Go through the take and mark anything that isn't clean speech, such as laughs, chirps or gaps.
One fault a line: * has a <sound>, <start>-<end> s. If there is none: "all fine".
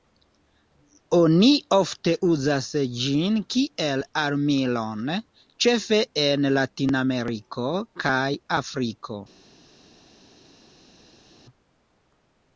all fine